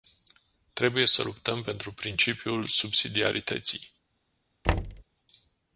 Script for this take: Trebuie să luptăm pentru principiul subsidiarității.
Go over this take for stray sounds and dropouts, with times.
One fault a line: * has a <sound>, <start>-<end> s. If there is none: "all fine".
* has a thud, 4.6-5.0 s